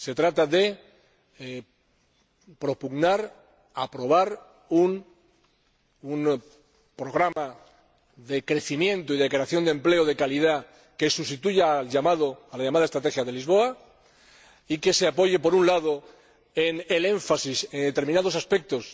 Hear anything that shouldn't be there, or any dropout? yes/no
yes